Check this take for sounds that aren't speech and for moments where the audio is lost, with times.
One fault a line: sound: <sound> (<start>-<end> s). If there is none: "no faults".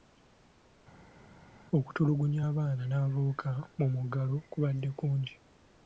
no faults